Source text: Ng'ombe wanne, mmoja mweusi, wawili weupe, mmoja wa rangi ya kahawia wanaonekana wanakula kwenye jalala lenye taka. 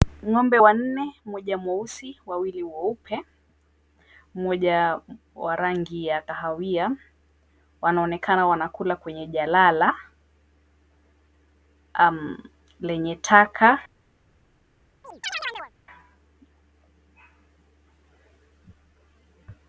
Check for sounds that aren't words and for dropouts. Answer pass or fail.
fail